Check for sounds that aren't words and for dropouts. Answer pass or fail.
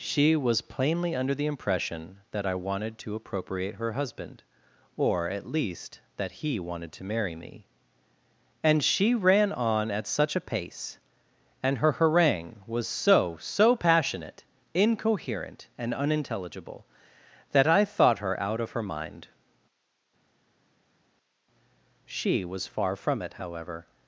pass